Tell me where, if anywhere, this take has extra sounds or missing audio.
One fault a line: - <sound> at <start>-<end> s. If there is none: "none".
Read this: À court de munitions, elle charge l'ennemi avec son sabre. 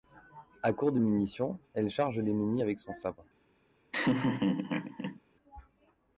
- laugh at 3.9-5.2 s